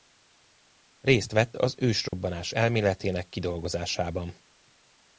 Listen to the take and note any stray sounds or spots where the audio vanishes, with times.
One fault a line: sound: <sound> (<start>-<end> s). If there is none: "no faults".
sound: dropout (2.1-2.1 s)